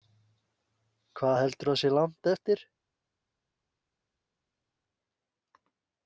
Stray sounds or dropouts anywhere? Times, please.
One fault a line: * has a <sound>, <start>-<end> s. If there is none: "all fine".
all fine